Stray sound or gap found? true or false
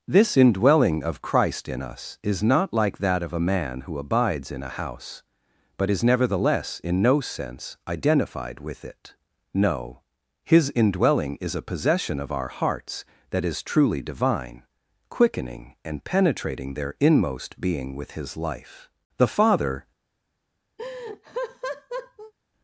true